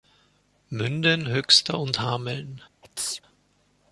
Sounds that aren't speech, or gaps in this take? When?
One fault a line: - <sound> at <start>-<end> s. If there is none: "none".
- sneeze at 2.8-3.2 s